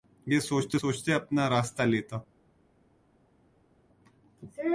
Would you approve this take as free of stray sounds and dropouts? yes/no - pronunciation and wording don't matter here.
yes